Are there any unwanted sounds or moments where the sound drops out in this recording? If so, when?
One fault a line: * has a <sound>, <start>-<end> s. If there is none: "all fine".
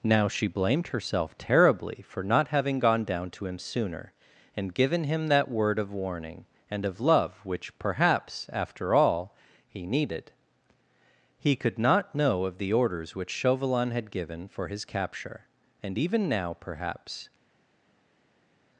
all fine